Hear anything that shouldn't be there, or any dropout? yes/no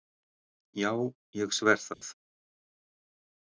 yes